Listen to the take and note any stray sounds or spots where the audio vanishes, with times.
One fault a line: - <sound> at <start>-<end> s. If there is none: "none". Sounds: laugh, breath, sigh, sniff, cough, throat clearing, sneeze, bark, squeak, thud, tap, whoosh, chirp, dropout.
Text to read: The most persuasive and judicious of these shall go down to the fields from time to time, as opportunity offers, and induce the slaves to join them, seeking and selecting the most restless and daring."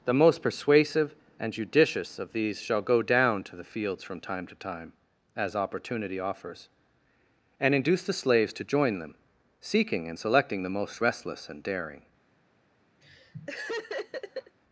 - laugh at 13.0-14.6 s